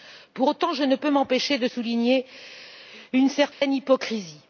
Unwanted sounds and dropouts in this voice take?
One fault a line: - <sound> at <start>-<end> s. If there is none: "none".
- dropout at 3.5-3.6 s